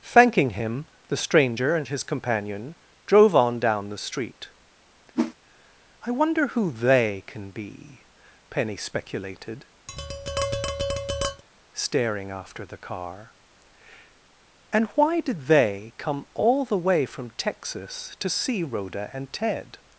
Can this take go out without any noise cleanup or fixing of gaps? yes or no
no